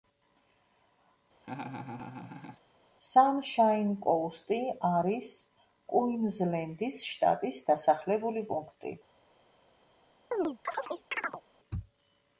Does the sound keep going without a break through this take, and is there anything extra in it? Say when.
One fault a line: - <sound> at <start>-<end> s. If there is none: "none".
- laugh at 1.4-2.6 s
- chirp at 10.3-11.4 s